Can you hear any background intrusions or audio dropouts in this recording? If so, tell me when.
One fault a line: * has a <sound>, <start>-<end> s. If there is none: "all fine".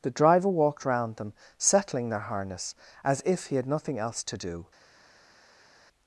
all fine